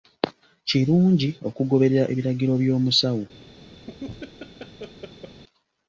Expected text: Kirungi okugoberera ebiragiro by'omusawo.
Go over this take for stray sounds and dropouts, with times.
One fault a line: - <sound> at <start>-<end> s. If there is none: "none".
- laugh at 3.9-5.4 s